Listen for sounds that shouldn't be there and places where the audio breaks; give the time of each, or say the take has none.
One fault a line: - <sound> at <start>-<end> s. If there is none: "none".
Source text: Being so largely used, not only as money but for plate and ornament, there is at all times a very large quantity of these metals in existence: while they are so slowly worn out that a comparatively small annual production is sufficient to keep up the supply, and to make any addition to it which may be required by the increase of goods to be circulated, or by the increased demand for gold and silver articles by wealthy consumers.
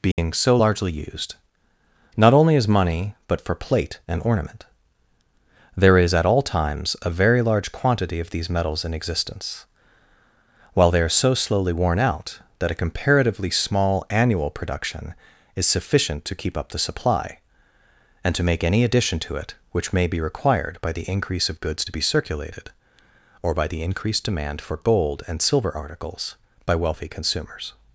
- dropout at 0.1-0.2 s